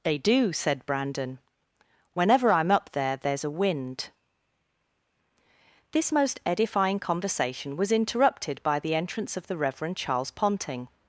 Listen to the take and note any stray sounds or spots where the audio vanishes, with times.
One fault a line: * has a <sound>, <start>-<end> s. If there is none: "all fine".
all fine